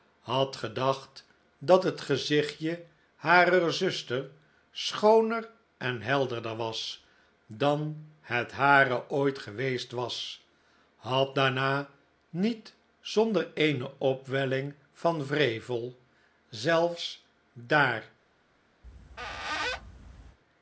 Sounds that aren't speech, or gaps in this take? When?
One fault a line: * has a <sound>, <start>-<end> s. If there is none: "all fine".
* has a squeak, 18.8-20.4 s